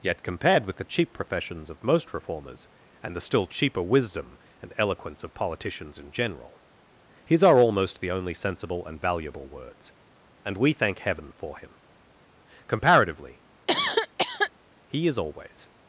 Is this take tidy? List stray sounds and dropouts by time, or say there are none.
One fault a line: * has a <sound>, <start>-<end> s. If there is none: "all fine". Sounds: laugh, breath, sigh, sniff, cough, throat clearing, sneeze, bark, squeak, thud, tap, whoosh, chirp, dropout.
* has a cough, 13.7-14.5 s